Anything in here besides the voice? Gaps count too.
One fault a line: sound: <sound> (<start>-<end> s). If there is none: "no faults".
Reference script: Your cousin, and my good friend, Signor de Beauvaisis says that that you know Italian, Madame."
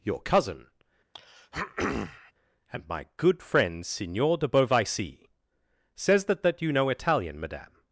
sound: throat clearing (1.1-2.3 s)